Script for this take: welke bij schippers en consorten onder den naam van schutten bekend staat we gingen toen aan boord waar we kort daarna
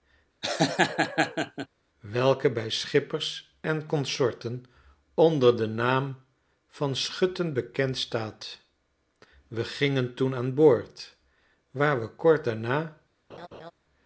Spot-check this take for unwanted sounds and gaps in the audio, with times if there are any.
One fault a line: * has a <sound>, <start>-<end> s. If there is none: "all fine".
* has a laugh, 0.4-1.7 s
* has a laugh, 13.3-13.7 s